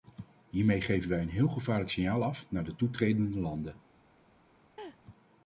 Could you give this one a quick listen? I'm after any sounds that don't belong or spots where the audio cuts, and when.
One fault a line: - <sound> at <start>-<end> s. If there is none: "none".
- laugh at 4.8-5.0 s